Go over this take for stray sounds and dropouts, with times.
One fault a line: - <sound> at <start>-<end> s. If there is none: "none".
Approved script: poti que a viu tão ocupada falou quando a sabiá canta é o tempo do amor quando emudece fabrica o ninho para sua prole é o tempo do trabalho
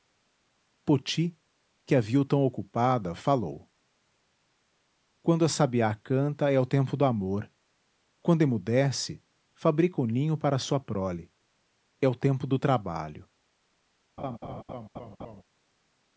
- laugh at 14.2-15.4 s